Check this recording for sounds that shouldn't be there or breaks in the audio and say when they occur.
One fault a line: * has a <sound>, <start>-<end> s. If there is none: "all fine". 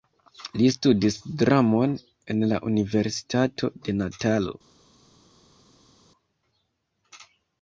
all fine